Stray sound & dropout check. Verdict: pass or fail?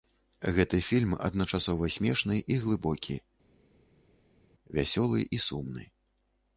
pass